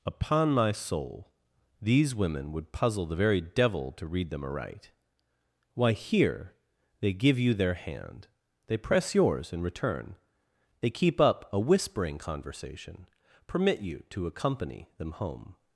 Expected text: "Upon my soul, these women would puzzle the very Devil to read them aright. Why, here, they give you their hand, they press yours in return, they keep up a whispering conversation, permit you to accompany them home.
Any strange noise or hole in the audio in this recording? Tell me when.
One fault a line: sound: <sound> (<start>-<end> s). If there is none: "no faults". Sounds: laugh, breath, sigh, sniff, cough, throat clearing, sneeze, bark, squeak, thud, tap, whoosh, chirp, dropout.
no faults